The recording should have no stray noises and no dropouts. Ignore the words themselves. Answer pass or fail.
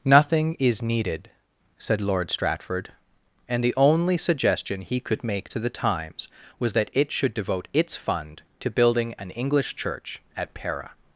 pass